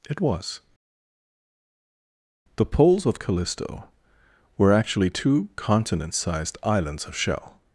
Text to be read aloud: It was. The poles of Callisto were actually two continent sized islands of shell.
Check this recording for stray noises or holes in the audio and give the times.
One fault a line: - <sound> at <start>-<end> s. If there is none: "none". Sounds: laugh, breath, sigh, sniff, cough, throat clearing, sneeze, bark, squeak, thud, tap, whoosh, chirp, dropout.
none